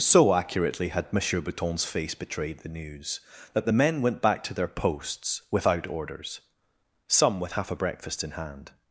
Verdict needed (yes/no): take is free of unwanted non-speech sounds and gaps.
yes